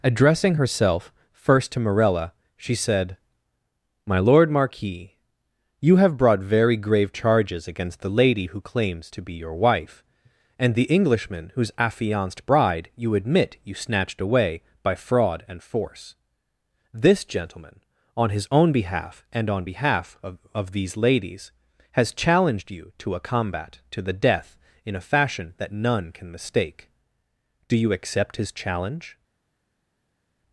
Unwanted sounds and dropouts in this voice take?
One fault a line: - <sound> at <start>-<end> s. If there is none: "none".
none